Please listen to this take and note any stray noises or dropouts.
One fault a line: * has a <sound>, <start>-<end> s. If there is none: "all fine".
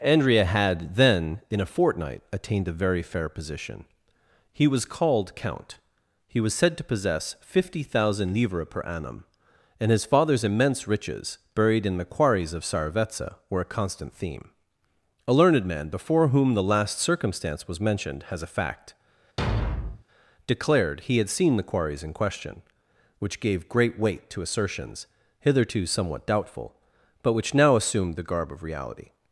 * has a thud, 19.4-20.0 s